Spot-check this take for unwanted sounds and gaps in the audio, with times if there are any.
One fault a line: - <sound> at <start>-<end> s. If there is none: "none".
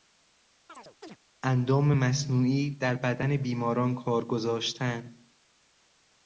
- chirp at 0.7-1.2 s